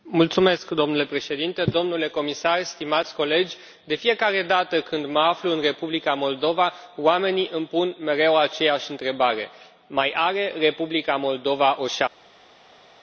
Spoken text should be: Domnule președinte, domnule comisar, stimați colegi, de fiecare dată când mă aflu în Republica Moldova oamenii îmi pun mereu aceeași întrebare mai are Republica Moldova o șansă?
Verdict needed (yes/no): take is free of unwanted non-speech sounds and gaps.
yes